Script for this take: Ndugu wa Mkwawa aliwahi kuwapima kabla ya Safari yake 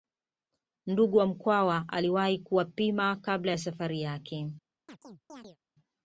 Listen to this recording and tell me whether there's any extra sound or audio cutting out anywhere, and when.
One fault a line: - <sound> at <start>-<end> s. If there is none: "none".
- chirp at 4.9-5.6 s